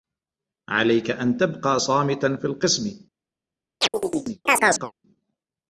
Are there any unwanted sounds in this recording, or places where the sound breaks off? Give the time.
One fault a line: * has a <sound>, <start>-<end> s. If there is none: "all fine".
* has a chirp, 3.8-4.9 s